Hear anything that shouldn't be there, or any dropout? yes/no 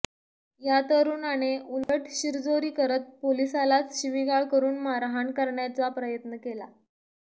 yes